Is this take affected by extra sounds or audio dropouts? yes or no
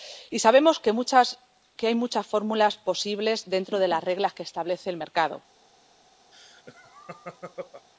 yes